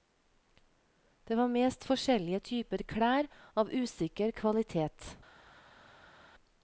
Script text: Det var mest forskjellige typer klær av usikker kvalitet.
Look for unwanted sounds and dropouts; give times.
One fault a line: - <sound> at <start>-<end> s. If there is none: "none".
none